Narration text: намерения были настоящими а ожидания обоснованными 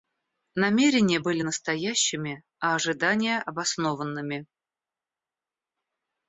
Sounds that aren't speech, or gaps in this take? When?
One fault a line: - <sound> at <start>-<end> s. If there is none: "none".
none